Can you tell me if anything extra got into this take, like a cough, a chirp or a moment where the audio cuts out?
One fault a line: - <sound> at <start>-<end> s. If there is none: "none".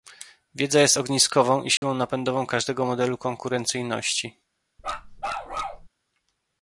- dropout at 1.8-1.8 s
- bark at 4.8-5.9 s